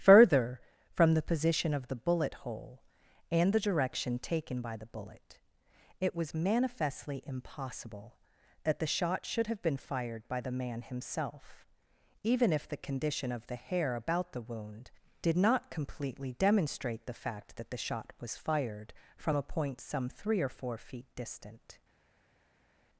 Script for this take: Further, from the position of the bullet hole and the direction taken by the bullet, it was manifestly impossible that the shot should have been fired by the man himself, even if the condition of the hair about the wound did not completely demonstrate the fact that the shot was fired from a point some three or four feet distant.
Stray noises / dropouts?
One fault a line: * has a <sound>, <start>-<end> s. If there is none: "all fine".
all fine